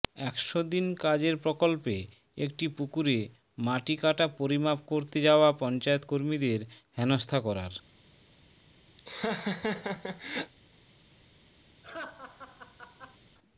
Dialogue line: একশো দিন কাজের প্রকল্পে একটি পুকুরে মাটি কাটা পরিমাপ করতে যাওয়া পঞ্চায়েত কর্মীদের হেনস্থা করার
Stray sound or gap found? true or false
true